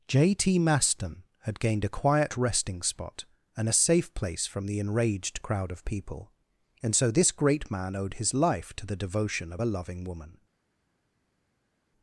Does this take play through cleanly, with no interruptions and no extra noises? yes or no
yes